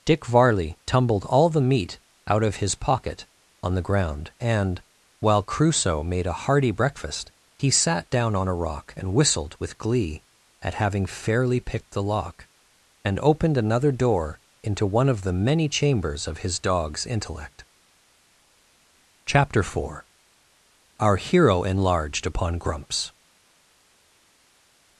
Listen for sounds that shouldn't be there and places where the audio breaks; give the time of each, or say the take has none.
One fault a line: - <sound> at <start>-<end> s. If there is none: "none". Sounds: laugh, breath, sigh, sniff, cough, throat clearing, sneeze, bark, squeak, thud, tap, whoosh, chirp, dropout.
none